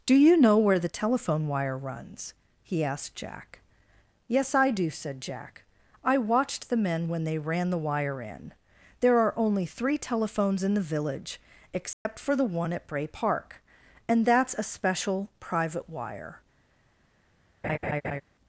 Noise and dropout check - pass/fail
fail